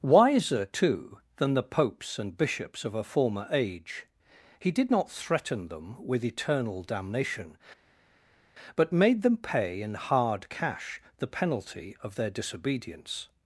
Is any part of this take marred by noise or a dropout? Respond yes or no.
no